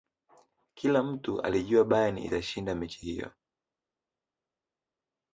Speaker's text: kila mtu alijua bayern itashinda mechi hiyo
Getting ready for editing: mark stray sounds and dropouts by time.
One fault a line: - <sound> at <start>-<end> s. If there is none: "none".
none